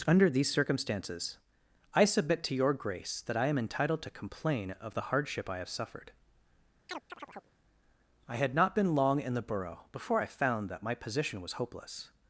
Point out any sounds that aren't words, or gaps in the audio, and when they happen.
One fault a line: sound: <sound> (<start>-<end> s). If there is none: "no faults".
sound: chirp (6.9-7.5 s)